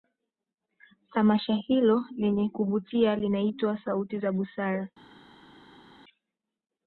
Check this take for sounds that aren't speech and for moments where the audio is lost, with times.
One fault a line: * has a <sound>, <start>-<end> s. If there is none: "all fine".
all fine